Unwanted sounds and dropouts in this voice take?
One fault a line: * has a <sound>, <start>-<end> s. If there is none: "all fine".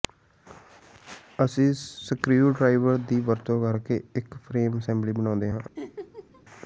* has a laugh, 5.8-6.4 s